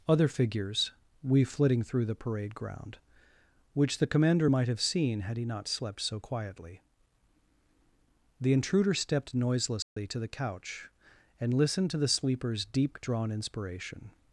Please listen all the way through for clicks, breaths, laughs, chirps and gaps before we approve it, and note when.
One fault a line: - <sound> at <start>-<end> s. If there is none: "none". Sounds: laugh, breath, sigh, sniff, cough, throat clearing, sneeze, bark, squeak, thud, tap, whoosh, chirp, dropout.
- dropout at 9.8-10.0 s